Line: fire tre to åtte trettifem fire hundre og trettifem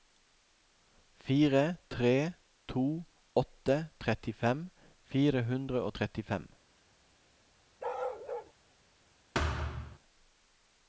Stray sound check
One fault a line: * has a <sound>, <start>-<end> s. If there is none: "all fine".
* has a bark, 7.8-8.5 s
* has a thud, 9.3-10.0 s